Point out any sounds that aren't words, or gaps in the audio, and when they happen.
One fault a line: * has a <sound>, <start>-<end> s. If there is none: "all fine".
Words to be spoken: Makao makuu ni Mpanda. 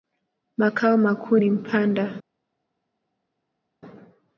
all fine